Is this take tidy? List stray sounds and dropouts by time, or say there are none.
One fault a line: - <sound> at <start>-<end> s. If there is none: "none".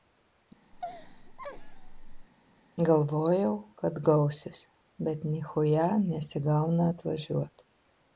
- laugh at 0.7-2.3 s